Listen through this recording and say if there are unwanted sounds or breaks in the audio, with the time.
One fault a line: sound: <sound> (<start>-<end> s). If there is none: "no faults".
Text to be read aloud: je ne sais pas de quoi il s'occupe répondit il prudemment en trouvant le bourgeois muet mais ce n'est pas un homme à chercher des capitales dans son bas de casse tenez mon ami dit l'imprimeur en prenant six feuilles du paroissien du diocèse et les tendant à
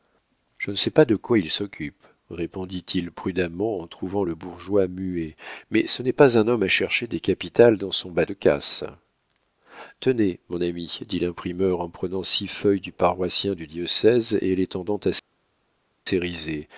no faults